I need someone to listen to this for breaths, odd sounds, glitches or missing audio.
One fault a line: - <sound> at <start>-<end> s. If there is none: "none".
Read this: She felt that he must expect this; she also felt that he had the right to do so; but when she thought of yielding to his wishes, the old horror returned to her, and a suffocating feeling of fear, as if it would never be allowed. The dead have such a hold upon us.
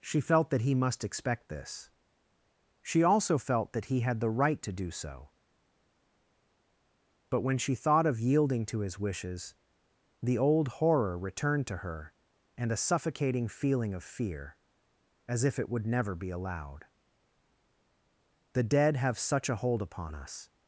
none